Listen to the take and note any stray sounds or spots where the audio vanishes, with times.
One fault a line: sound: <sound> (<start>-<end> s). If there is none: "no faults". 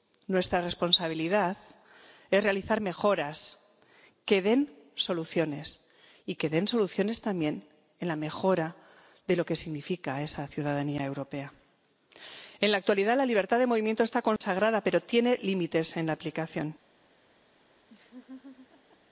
sound: dropout (14.4-14.4 s)
sound: laugh (17.9-19.0 s)